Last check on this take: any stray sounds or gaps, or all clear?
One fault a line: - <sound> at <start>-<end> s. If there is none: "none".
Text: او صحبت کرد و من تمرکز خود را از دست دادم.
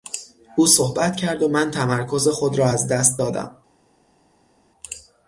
none